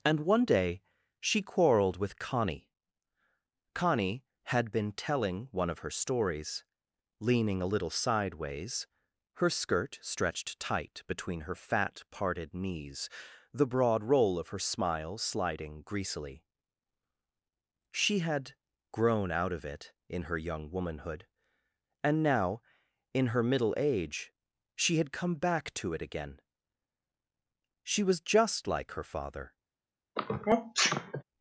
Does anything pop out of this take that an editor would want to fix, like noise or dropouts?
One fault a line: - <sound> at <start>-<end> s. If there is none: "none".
- sneeze at 30.2-31.2 s